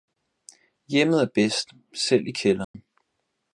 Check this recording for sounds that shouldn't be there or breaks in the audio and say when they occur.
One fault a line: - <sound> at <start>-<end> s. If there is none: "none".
- dropout at 2.6-2.7 s